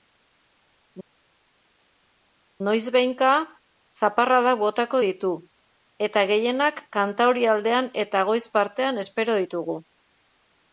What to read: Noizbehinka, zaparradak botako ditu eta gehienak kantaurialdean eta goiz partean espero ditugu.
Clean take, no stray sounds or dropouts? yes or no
yes